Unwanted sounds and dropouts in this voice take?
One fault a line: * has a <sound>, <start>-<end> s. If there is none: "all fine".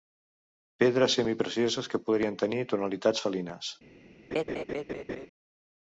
* has a laugh, 4.3-5.3 s